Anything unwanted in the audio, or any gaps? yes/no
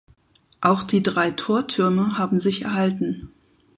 no